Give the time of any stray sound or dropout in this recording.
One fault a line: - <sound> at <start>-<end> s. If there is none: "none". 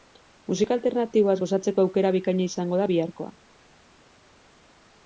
none